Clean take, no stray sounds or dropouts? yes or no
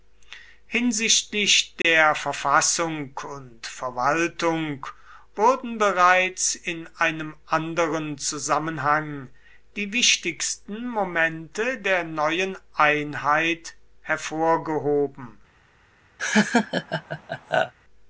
no